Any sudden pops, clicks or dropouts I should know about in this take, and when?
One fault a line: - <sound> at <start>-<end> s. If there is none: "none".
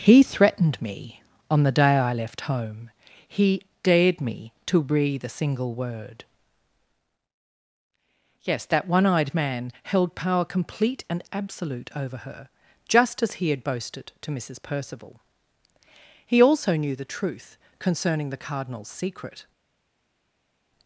none